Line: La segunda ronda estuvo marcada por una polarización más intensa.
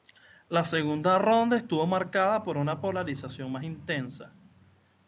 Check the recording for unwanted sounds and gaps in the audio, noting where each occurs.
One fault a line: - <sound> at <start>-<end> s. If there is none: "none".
none